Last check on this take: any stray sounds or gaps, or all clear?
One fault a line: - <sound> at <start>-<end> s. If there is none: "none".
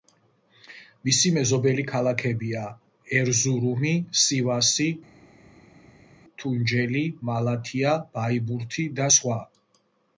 none